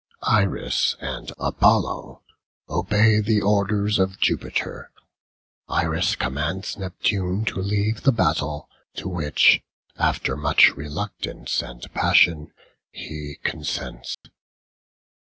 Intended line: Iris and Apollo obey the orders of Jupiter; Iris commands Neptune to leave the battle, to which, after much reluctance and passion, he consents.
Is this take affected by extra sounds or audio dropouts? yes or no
yes